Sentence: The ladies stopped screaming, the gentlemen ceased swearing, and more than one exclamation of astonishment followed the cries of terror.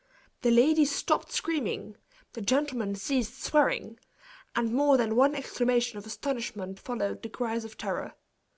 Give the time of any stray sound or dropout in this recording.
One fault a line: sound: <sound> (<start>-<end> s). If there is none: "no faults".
no faults